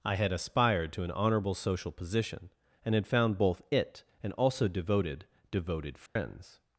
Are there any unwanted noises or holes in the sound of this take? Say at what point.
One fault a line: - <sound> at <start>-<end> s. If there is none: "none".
- dropout at 6.1-6.2 s